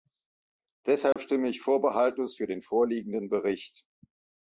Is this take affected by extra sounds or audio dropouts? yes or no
yes